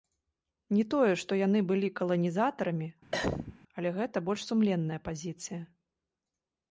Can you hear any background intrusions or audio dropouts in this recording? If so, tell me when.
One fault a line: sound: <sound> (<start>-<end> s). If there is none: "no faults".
sound: cough (3.1-3.5 s)